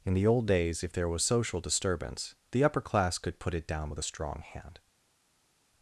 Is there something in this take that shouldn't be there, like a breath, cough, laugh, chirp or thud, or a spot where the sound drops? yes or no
no